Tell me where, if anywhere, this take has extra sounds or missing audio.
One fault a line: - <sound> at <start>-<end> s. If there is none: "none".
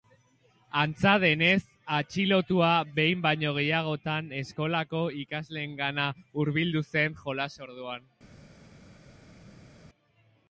none